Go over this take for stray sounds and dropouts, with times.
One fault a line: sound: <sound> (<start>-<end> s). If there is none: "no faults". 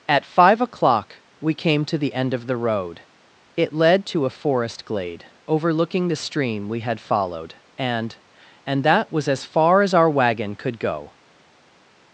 no faults